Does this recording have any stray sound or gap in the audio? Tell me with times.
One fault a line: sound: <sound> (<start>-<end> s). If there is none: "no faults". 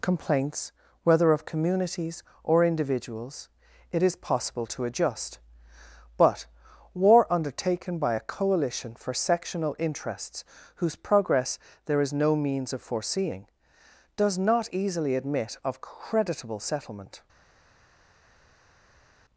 no faults